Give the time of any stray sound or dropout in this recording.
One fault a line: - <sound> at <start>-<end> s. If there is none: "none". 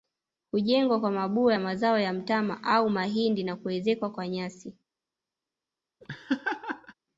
- laugh at 6.0-6.9 s